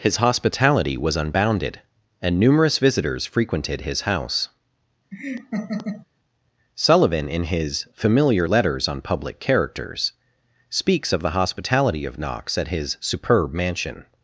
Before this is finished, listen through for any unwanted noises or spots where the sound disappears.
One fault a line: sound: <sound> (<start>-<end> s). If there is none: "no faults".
sound: laugh (5.1-6.1 s)